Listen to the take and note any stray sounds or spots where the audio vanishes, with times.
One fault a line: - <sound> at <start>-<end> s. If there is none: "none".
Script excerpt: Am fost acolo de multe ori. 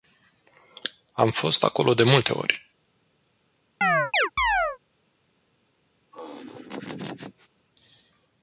- chirp at 3.8-4.8 s
- laugh at 6.1-7.5 s